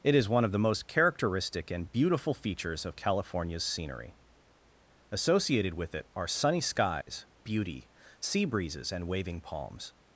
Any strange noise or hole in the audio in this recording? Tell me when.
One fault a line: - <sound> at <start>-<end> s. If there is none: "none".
- dropout at 7.0-7.1 s